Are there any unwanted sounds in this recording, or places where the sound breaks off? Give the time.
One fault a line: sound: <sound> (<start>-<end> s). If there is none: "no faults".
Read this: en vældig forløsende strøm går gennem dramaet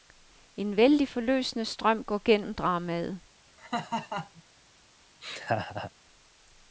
sound: laugh (3.6-4.4 s)
sound: laugh (5.2-5.9 s)